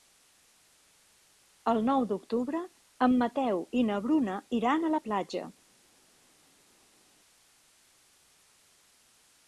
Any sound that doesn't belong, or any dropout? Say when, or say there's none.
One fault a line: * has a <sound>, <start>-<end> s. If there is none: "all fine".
all fine